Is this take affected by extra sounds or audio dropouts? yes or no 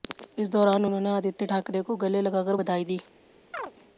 yes